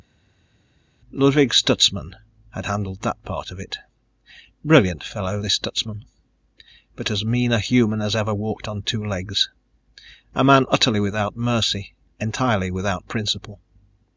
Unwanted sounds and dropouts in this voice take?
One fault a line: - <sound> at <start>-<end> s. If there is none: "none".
none